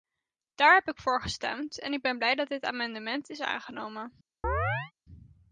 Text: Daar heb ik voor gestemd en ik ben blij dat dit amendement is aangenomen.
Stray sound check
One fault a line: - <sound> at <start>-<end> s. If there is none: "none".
- chirp at 4.4-4.9 s